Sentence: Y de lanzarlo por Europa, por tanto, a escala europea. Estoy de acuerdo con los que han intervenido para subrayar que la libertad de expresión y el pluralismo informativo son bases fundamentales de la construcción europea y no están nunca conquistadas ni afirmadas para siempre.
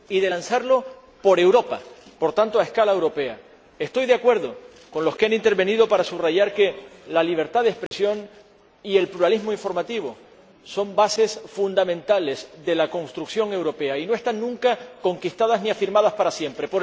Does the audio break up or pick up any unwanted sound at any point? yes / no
yes